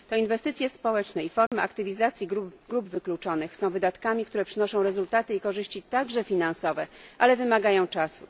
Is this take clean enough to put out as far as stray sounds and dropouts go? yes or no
no